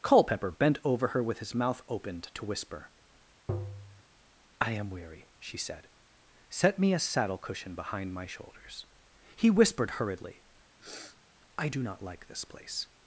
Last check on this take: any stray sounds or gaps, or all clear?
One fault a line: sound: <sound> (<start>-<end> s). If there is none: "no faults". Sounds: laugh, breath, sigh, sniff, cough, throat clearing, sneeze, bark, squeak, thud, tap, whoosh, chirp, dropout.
sound: tap (3.5-4.0 s)
sound: sniff (10.8-11.2 s)